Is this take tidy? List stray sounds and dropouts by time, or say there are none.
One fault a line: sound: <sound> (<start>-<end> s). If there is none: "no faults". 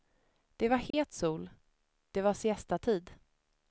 sound: dropout (0.9-0.9 s)